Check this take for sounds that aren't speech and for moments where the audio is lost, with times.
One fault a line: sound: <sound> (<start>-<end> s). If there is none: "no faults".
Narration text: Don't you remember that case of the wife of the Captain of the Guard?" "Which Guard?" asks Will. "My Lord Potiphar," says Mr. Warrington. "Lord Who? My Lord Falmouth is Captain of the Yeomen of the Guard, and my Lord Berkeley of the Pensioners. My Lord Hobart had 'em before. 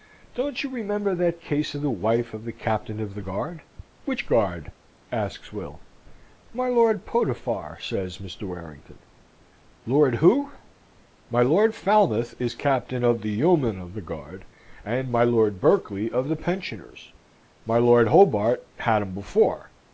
no faults